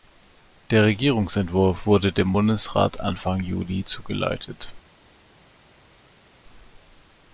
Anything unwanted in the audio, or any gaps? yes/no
no